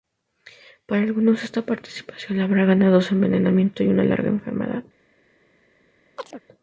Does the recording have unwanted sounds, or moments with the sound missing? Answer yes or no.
yes